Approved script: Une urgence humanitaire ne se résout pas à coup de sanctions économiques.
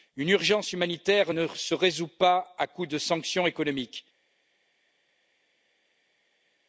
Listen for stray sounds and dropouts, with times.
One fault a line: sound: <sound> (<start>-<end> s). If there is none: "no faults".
no faults